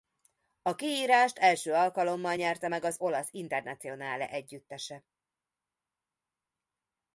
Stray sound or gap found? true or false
false